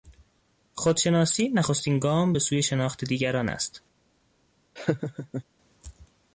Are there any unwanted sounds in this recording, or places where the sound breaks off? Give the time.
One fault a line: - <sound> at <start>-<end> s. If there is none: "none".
- laugh at 4.8-5.4 s